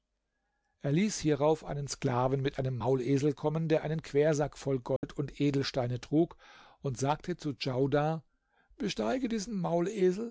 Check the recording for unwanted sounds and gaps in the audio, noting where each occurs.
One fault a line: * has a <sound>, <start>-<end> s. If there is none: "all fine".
* has a dropout, 5.0-5.0 s